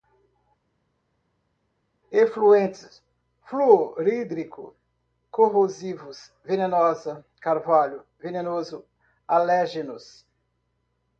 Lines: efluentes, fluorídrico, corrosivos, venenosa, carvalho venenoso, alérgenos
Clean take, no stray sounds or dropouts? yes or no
yes